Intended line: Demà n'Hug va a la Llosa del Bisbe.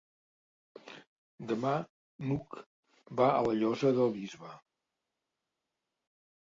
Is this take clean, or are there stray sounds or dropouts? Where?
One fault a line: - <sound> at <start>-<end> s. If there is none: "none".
none